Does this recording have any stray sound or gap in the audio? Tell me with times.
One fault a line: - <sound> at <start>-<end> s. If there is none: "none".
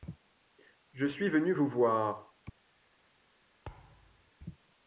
- thud at 3.7-4.3 s